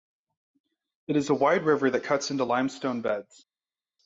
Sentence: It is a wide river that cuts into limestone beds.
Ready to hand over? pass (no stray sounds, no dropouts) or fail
pass